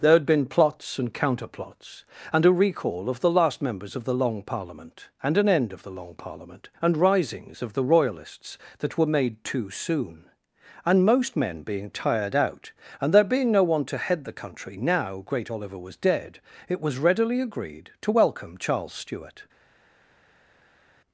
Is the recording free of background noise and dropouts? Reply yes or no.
yes